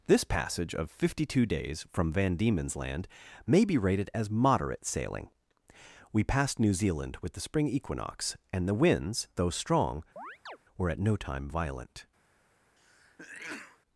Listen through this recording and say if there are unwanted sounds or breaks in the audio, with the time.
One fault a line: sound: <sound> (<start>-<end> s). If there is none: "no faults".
sound: chirp (10.2-10.6 s)
sound: sneeze (12.8-13.8 s)